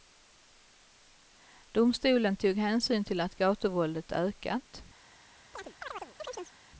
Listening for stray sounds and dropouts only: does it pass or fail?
fail